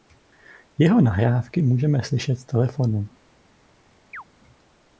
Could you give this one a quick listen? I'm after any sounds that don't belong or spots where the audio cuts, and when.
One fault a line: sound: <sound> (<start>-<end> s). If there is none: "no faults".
sound: chirp (4.1-4.2 s)